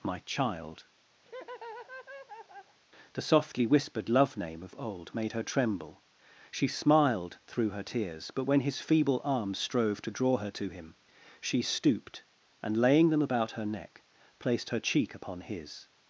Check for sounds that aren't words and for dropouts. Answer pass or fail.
fail